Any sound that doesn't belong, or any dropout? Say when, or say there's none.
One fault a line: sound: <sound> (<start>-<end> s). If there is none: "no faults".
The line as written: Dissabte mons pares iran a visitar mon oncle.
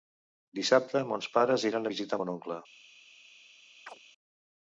sound: chirp (3.9-4.0 s)